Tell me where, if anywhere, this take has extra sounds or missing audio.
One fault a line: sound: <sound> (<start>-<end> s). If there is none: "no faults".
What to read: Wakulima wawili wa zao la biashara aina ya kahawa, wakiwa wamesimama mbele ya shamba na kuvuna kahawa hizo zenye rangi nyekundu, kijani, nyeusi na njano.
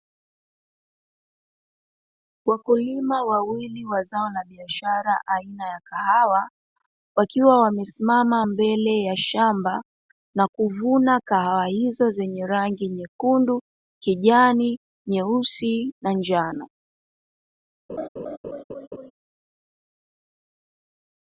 sound: laugh (17.9-19.1 s)